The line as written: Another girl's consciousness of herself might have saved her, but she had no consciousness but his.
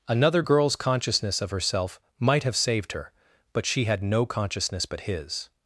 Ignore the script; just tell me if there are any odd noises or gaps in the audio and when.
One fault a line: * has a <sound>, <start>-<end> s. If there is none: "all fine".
all fine